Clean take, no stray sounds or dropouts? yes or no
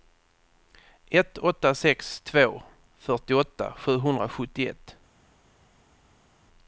yes